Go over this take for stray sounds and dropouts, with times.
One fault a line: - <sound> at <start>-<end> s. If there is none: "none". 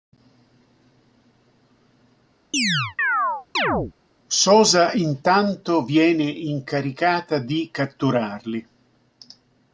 - chirp at 2.5-3.9 s